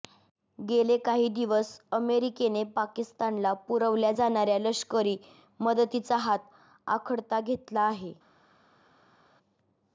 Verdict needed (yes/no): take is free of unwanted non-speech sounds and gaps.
yes